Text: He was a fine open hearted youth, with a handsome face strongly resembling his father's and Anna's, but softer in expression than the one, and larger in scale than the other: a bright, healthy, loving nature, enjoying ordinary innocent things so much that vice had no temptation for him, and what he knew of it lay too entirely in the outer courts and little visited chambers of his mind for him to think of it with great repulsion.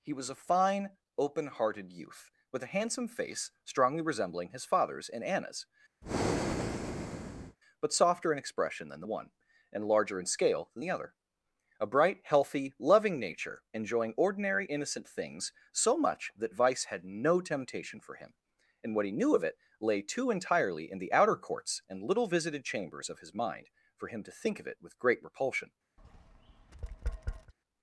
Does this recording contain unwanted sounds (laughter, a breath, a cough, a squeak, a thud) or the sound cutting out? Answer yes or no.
yes